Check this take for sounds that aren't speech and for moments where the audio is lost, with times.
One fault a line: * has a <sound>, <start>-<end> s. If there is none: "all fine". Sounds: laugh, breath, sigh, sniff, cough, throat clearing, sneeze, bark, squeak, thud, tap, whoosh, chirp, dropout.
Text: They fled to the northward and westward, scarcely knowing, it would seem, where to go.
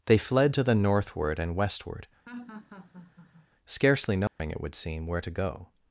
* has a laugh, 2.3-3.5 s
* has a dropout, 4.3-4.4 s